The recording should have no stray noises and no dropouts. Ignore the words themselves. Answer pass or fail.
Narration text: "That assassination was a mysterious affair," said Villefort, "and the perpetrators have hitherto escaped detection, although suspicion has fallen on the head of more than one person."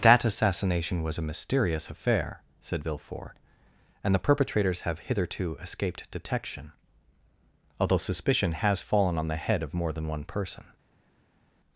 pass